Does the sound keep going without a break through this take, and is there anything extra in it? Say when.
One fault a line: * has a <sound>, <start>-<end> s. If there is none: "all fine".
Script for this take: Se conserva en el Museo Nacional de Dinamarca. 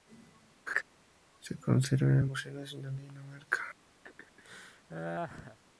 * has a laugh, 0.7-0.8 s
* has a laugh, 4.0-5.6 s